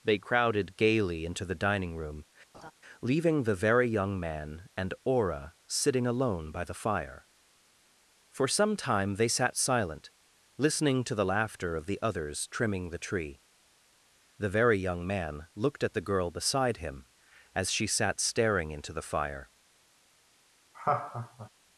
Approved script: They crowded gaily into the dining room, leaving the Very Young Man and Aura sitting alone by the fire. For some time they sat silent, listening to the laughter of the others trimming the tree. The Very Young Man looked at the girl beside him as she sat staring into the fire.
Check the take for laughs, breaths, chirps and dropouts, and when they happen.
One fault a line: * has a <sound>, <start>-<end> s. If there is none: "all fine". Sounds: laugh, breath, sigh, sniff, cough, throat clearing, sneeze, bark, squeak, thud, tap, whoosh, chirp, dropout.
* has a laugh, 2.5-2.7 s
* has a laugh, 20.7-21.5 s